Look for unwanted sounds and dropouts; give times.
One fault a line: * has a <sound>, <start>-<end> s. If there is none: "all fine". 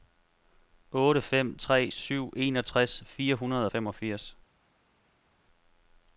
all fine